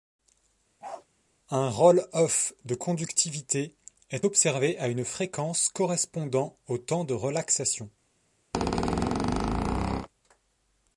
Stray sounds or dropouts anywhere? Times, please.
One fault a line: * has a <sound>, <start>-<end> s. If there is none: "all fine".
* has a bark, 0.8-1.1 s
* has a squeak, 8.5-10.1 s